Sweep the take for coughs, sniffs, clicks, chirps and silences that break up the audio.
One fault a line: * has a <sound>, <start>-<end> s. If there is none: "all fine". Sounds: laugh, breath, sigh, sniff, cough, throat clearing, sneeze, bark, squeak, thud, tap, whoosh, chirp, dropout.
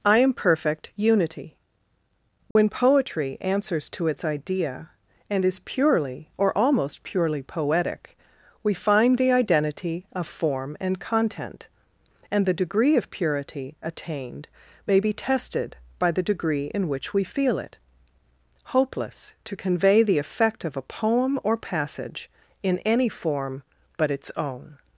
* has a dropout, 2.5-2.6 s